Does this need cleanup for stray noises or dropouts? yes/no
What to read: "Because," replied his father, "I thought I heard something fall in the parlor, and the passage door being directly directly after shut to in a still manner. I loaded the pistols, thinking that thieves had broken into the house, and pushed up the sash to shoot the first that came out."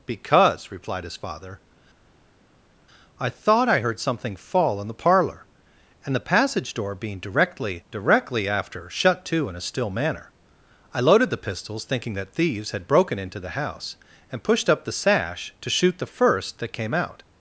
no